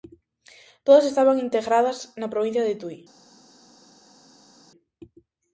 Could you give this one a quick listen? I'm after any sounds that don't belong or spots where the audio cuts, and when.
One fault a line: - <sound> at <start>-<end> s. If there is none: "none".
none